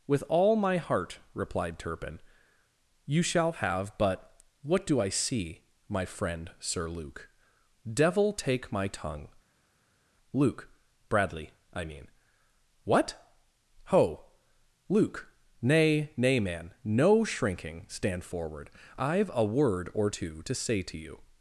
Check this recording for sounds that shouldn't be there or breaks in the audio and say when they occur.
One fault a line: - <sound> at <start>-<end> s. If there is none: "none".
none